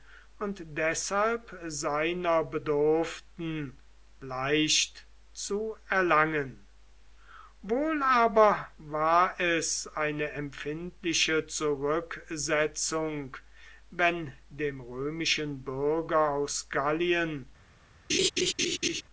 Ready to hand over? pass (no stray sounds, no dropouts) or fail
fail